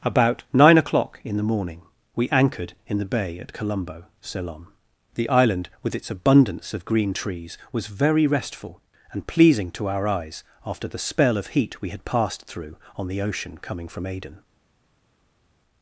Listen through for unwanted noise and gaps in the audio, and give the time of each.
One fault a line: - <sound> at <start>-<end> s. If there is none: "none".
none